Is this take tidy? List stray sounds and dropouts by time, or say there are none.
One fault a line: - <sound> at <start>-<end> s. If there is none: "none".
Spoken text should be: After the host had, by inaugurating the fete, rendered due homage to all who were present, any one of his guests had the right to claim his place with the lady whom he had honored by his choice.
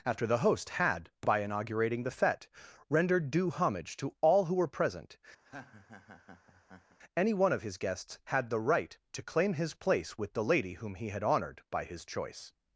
- laugh at 5.4-7.0 s